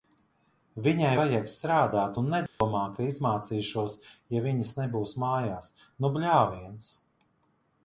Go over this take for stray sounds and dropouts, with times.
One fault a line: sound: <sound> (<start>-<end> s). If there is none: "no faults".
sound: dropout (2.5-2.6 s)